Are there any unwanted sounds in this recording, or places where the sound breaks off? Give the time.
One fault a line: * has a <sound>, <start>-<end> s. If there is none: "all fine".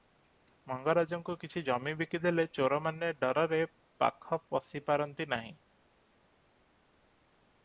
all fine